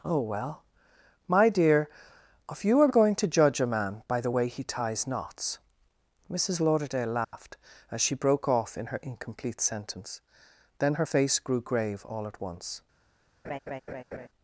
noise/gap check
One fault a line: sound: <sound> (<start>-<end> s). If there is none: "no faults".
sound: dropout (7.2-7.3 s)
sound: laugh (13.4-14.3 s)